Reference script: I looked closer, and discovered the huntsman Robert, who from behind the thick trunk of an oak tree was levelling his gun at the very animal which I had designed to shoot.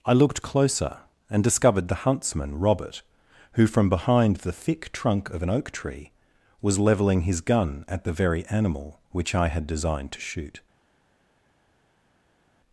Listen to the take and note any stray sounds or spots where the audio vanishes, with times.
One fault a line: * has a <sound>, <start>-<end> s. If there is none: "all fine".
all fine